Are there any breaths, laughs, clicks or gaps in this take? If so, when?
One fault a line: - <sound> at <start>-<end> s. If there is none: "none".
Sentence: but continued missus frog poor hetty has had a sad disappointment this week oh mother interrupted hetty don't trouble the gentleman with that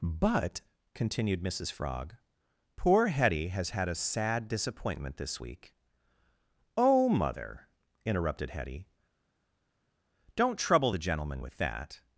none